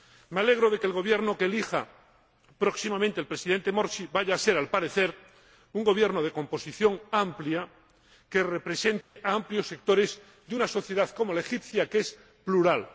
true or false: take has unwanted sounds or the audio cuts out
true